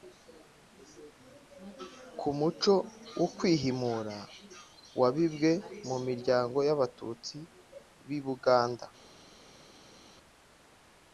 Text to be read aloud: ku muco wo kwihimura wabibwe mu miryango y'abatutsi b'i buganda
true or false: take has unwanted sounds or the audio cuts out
false